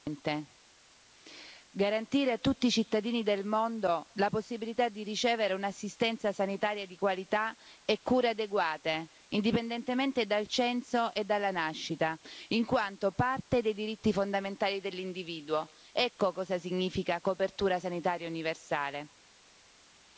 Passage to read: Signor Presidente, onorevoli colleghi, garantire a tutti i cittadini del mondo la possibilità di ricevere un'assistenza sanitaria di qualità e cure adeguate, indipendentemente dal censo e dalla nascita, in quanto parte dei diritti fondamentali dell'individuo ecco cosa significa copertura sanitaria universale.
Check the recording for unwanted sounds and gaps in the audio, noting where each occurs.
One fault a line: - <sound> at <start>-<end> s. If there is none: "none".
none